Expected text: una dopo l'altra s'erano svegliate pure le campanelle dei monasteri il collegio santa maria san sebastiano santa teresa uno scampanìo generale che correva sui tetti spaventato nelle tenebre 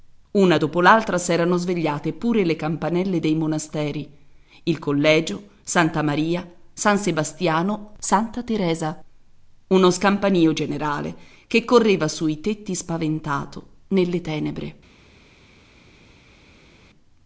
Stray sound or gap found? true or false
false